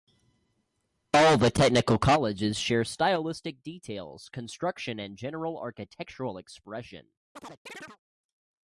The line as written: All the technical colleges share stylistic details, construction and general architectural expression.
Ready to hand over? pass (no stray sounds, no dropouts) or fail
fail